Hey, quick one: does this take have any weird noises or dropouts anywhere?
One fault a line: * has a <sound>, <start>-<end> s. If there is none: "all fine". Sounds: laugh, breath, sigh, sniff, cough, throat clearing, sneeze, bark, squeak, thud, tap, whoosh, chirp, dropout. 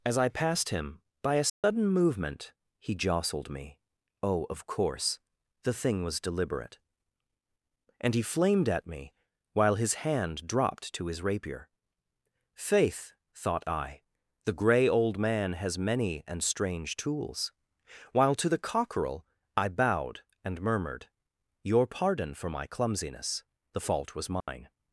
* has a dropout, 1.5-1.6 s
* has a dropout, 24.4-24.5 s